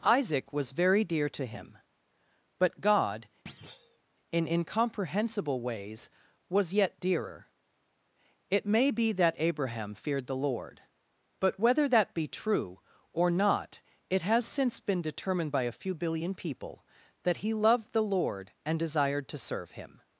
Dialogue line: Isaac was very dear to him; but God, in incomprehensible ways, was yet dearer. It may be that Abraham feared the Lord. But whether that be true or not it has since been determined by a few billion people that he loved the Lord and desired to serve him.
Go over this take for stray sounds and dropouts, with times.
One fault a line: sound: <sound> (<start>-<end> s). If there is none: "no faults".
sound: thud (3.5-4.0 s)